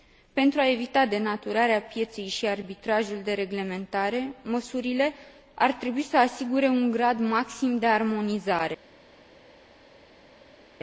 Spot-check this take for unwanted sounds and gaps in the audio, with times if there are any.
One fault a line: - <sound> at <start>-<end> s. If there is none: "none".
none